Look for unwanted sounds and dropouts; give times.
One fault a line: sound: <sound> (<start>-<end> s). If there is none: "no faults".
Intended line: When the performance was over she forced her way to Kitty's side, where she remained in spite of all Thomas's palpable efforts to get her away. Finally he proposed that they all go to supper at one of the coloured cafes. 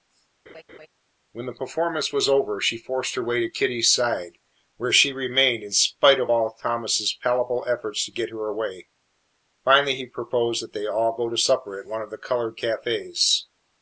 sound: laugh (0.5-0.9 s)